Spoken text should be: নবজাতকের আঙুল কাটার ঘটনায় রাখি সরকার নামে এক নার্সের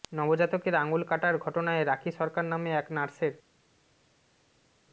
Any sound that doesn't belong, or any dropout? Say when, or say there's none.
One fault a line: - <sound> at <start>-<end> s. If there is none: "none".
none